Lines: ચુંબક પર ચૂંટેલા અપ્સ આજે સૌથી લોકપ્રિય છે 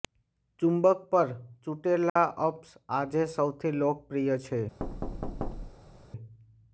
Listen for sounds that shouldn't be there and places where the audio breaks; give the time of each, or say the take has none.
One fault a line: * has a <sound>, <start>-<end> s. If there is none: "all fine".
* has a dropout, 2.1-2.2 s
* has a thud, 4.8-6.1 s